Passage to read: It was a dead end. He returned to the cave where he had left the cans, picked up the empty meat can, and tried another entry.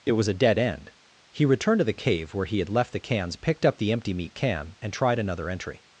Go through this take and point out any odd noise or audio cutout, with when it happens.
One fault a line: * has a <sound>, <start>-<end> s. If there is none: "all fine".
all fine